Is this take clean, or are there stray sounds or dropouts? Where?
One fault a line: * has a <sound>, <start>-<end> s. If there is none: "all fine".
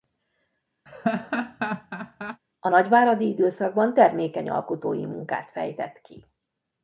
* has a laugh, 0.9-2.4 s